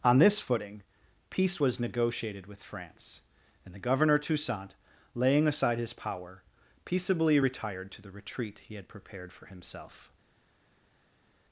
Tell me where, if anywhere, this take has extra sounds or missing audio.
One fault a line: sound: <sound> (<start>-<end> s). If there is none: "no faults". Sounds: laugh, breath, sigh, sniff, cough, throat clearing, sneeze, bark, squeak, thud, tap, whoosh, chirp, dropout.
no faults